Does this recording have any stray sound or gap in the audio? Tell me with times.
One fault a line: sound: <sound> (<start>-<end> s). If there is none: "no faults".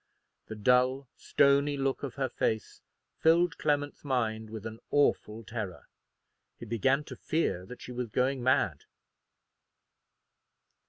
no faults